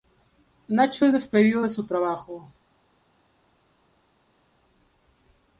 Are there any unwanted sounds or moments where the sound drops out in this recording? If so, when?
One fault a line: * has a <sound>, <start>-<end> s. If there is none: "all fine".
all fine